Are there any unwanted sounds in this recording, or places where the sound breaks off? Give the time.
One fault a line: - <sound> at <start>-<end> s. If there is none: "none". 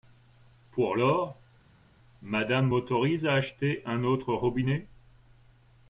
none